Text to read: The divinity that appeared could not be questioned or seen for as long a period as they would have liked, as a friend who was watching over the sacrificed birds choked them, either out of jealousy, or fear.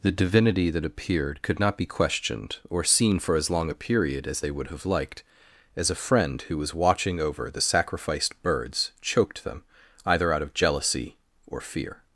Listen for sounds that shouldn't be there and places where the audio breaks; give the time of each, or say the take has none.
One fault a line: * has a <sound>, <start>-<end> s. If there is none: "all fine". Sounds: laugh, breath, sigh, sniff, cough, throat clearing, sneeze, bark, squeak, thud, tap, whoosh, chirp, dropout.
all fine